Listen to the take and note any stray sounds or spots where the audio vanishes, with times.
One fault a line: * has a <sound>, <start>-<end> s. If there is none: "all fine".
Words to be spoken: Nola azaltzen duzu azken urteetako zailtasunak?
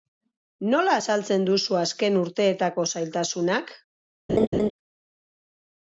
* has a laugh, 4.3-4.7 s